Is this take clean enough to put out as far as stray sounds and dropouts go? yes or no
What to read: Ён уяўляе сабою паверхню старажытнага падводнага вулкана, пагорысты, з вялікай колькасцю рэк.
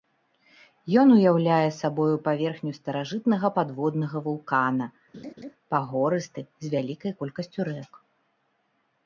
no